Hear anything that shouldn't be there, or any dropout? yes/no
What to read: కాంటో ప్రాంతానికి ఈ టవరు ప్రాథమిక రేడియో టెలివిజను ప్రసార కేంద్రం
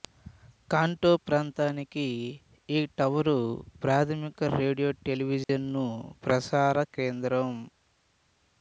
yes